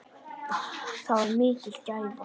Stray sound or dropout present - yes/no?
no